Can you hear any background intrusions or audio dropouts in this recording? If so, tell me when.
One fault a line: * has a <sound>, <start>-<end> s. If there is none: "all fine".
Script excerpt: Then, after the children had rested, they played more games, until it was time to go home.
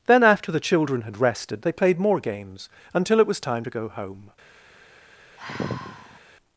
* has a sigh, 5.4-6.2 s